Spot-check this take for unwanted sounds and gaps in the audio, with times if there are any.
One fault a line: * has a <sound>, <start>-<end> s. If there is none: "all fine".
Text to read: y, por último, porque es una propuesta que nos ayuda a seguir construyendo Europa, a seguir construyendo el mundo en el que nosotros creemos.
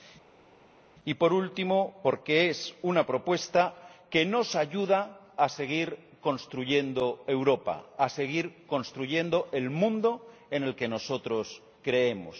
all fine